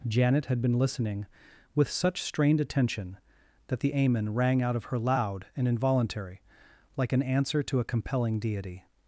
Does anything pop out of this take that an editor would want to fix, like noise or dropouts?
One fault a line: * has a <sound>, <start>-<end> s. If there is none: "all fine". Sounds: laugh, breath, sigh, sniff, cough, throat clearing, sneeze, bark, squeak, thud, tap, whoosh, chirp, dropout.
all fine